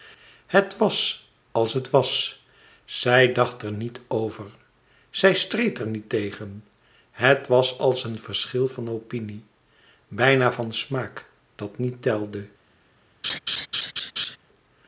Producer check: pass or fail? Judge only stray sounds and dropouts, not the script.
fail